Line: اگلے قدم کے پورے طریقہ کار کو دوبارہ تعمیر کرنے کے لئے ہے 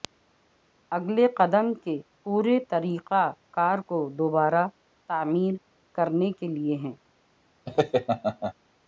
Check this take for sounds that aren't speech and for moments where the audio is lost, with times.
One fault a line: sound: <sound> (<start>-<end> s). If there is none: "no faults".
sound: laugh (7.7-8.5 s)